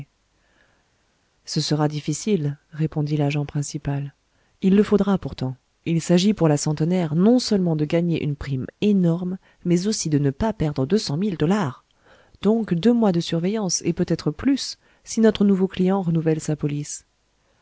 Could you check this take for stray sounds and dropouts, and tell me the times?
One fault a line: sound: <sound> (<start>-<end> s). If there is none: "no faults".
no faults